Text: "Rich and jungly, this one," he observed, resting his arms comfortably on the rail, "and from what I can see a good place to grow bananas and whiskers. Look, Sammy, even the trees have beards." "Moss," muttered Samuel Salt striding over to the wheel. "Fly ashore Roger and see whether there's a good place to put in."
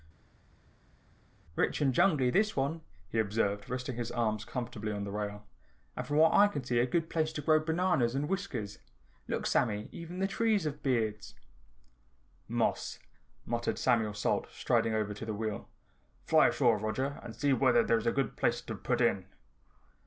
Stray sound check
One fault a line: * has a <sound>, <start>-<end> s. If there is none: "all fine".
all fine